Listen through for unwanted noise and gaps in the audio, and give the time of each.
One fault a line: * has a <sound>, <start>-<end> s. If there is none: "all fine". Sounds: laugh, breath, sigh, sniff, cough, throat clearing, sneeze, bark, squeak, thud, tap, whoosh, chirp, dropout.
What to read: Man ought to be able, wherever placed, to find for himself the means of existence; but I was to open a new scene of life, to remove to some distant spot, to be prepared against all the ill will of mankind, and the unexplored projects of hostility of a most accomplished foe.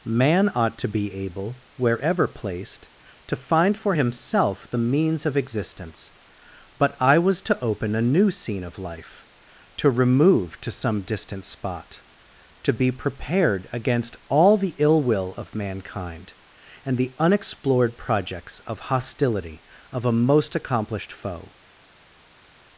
all fine